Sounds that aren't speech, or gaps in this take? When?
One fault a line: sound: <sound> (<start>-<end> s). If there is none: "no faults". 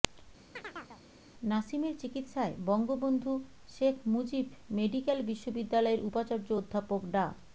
sound: chirp (0.6-1.0 s)